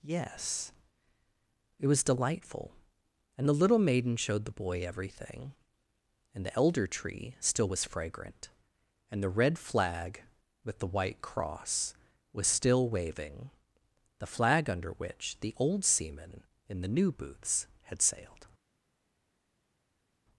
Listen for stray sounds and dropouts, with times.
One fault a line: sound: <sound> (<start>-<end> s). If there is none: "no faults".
no faults